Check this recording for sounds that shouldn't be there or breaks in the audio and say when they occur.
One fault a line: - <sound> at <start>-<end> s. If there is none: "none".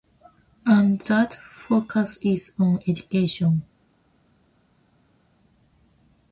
none